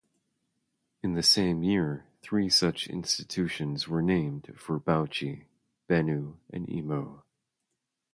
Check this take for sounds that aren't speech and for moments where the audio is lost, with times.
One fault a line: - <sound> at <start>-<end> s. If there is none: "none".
none